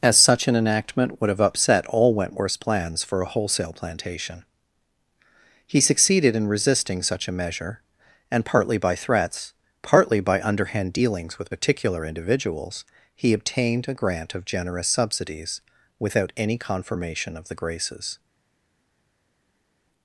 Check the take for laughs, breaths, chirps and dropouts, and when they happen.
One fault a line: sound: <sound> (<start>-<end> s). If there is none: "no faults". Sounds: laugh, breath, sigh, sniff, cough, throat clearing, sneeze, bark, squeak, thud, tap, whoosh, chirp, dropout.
no faults